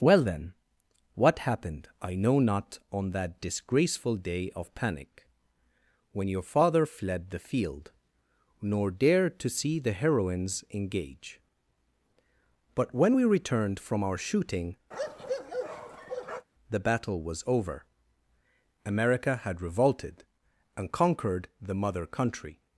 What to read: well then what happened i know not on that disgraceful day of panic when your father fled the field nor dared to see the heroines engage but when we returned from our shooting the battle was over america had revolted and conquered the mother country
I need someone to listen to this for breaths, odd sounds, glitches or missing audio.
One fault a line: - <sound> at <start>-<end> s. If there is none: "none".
- bark at 14.9-16.5 s